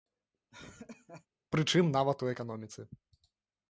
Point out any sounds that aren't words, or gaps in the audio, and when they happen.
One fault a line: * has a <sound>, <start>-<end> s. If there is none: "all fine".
* has a laugh, 0.5-1.3 s